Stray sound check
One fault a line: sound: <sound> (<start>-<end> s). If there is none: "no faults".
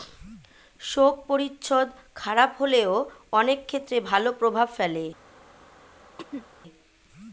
sound: throat clearing (6.2-6.5 s)